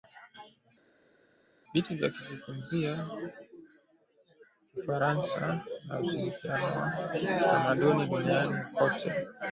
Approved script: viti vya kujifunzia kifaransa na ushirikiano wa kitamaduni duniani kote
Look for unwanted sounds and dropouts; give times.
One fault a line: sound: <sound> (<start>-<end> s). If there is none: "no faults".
no faults